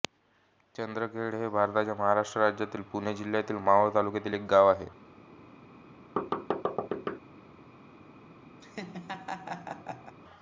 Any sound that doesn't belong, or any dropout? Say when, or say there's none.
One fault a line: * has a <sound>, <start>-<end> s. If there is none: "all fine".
* has a thud, 6.2-7.2 s
* has a laugh, 8.6-10.1 s